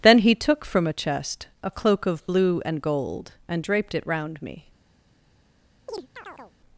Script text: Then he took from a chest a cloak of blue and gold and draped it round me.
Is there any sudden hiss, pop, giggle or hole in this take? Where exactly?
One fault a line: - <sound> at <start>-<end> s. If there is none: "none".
- chirp at 5.9-6.5 s